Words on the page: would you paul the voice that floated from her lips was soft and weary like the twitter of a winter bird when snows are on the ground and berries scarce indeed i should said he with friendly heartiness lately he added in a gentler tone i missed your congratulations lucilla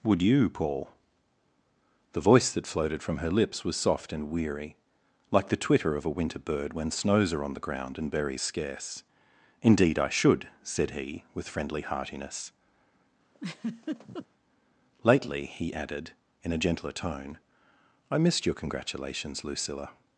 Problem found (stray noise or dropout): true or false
true